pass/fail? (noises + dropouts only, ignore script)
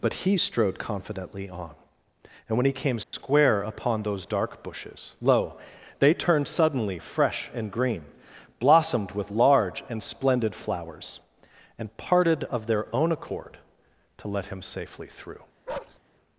fail